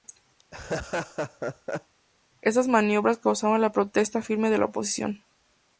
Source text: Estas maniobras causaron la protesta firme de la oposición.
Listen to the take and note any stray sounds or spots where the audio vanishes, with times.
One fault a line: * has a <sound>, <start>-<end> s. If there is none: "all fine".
* has a laugh, 0.4-1.9 s